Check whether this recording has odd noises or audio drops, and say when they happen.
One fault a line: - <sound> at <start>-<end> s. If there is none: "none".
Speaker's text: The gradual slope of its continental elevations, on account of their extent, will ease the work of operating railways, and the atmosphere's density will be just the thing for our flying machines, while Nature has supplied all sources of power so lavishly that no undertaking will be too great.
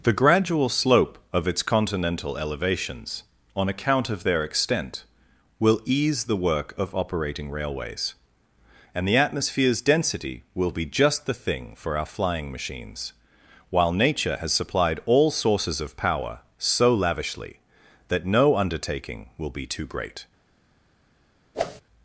- whoosh at 21.5-21.8 s